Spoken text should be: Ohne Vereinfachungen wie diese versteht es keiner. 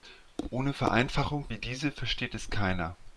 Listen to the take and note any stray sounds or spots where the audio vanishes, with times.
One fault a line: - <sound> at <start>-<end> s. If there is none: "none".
none